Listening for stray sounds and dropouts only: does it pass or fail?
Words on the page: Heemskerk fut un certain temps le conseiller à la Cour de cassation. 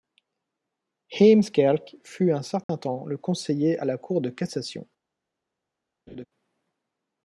fail